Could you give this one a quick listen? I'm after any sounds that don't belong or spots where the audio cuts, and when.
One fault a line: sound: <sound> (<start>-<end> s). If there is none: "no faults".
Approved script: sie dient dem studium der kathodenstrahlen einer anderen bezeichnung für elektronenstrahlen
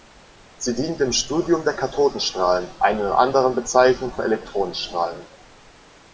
no faults